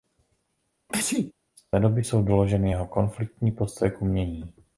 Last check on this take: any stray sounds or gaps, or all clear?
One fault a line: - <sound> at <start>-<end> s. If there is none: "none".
- sneeze at 0.9-1.3 s